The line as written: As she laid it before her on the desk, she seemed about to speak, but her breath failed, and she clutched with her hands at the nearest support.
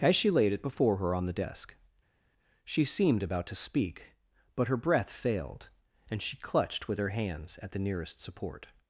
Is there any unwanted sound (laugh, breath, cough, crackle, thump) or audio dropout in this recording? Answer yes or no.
no